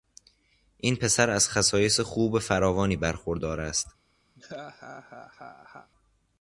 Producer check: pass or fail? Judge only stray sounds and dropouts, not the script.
fail